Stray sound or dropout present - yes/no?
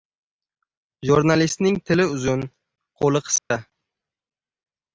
yes